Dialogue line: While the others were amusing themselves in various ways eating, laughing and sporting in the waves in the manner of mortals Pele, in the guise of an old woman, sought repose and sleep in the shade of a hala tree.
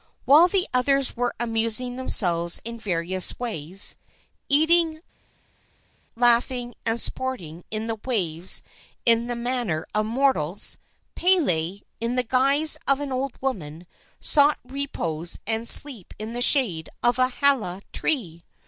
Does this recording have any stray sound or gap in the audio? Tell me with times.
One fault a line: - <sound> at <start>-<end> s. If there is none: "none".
none